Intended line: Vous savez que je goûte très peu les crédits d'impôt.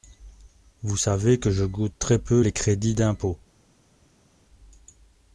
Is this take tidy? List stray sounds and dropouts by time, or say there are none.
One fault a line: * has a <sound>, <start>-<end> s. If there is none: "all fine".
all fine